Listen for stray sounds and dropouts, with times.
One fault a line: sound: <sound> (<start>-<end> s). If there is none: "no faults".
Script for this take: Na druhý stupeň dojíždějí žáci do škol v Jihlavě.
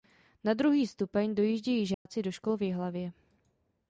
sound: dropout (1.9-2.1 s)